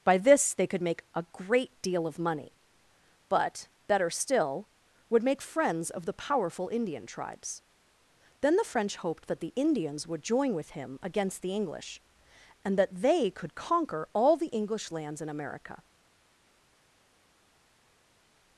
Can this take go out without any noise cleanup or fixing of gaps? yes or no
yes